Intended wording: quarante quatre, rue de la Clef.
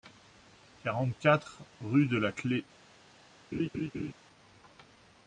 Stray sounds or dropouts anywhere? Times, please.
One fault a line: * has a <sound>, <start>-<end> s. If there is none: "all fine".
* has a laugh, 3.5-4.1 s